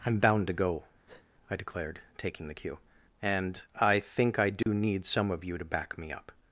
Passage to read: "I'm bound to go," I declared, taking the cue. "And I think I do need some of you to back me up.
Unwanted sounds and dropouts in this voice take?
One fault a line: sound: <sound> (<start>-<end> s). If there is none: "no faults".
sound: breath (1.1-1.3 s)
sound: dropout (4.6-4.7 s)